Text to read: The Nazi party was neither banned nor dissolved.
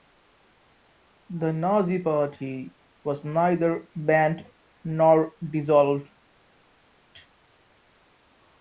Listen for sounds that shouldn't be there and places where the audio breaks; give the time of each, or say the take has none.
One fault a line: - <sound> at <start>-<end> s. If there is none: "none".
none